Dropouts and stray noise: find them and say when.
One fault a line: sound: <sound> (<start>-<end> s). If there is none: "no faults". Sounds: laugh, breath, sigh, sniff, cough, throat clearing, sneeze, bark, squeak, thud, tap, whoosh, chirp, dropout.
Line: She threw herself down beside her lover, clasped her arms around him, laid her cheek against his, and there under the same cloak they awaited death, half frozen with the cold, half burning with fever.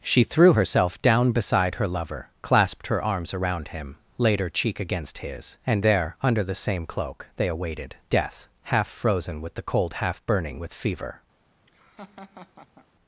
sound: laugh (11.7-12.9 s)